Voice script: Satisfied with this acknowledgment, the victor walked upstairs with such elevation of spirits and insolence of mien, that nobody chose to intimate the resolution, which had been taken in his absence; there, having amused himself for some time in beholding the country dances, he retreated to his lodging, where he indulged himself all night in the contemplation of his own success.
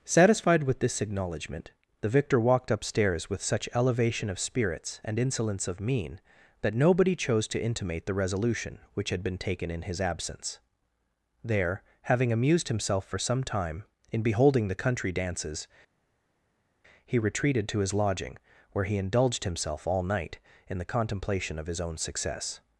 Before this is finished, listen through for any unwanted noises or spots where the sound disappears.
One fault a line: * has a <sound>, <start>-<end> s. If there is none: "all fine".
all fine